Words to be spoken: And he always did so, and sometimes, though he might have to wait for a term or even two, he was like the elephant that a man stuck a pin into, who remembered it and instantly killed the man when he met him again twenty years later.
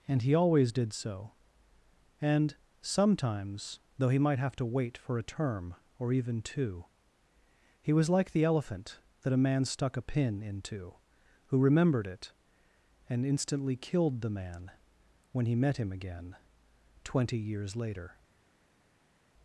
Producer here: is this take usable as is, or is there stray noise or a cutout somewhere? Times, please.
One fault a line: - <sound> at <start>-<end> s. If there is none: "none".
none